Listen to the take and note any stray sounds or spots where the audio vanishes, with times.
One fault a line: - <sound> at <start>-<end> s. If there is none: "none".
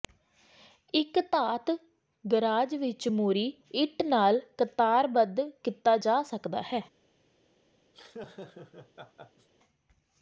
- laugh at 7.9-9.5 s